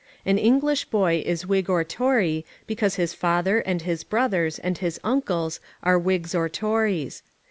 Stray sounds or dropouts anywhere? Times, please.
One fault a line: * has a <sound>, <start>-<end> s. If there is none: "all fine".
all fine